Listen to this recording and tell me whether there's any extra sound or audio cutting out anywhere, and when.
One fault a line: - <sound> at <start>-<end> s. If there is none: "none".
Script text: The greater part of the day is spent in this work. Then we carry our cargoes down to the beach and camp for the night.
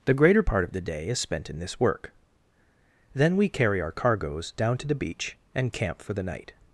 none